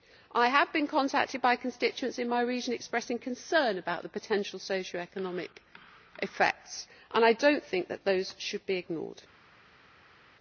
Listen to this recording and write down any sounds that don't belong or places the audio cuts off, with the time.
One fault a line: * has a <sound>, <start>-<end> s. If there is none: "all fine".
all fine